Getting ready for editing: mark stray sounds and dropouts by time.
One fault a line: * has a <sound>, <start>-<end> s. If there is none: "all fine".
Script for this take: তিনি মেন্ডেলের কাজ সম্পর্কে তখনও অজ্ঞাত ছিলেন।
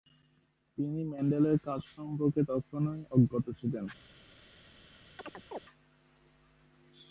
* has a chirp, 5.2-5.6 s